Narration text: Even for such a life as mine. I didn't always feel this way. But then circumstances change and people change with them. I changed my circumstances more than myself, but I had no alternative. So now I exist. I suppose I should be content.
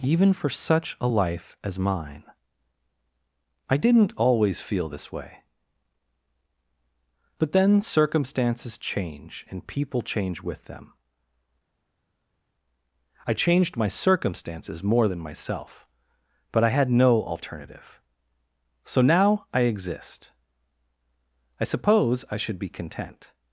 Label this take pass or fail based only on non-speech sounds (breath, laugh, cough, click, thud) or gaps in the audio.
pass